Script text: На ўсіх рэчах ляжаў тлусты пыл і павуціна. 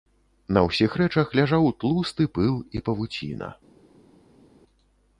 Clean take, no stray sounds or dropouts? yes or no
yes